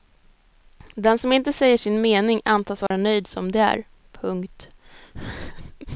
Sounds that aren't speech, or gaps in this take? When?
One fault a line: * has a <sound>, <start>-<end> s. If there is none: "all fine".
* has a dropout, 2.9-2.9 s